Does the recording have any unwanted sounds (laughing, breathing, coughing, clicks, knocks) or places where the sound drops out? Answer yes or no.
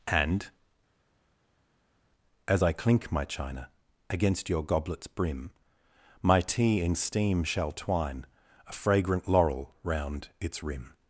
no